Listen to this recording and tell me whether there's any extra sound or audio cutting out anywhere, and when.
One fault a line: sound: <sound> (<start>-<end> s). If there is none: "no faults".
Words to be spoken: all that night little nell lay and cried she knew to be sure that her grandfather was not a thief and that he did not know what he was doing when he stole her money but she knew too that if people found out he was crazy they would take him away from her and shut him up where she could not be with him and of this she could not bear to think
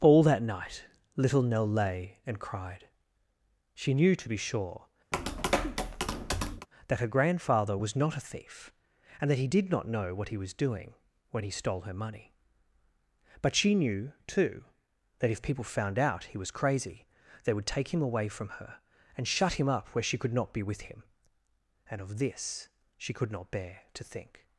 sound: tap (5.1-6.7 s)